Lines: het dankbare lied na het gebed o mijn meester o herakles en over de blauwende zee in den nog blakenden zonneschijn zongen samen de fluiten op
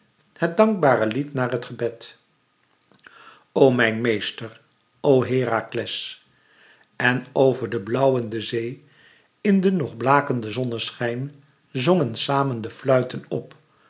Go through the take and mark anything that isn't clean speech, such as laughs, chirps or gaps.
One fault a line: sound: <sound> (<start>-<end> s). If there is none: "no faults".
no faults